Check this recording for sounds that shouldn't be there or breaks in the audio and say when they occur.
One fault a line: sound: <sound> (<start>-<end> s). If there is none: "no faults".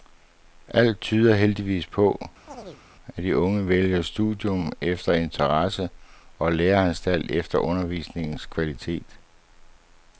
sound: chirp (2.5-2.8 s)